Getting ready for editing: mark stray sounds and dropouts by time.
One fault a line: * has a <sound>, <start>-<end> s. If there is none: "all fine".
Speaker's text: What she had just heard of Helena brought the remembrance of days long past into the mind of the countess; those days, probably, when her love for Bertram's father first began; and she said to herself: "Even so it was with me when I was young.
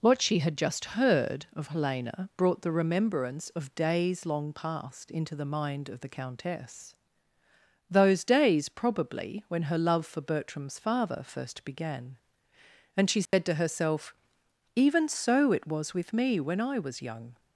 * has a dropout, 13.3-13.3 s